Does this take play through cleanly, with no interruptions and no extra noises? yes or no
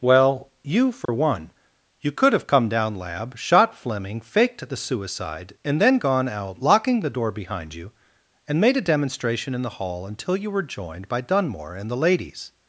no